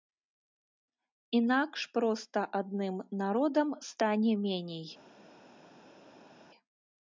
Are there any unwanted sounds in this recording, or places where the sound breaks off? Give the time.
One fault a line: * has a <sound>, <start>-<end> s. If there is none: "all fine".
all fine